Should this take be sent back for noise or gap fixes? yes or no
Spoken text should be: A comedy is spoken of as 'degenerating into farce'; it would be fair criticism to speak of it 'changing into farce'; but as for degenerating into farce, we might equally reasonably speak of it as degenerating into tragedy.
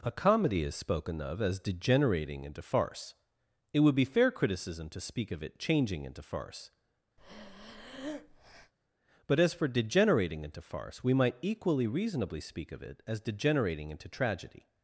yes